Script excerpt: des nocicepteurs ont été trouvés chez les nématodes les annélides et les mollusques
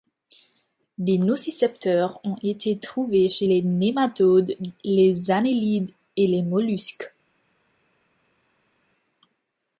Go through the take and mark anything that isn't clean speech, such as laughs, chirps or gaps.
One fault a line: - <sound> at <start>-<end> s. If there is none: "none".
none